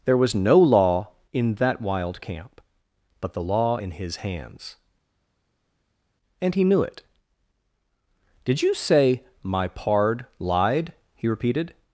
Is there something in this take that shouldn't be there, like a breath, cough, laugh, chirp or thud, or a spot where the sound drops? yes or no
no